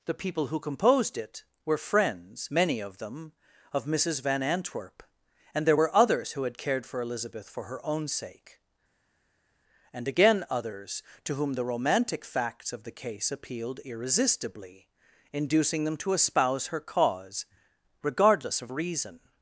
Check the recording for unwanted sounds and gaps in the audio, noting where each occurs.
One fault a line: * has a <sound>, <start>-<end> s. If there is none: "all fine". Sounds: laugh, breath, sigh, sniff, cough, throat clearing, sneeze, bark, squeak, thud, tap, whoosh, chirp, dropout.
all fine